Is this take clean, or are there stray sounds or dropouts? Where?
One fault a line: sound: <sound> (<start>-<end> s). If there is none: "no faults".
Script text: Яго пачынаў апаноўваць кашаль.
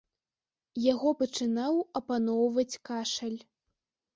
no faults